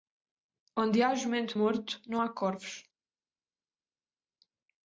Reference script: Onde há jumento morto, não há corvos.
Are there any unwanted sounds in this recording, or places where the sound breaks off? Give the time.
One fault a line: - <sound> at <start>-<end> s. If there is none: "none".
none